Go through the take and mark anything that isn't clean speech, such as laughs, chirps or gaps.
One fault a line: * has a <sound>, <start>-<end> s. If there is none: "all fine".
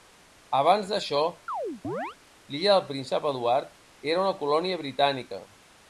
* has a chirp, 1.5-2.2 s